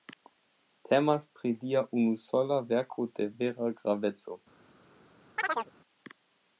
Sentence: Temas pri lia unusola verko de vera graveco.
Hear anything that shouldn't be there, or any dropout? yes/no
yes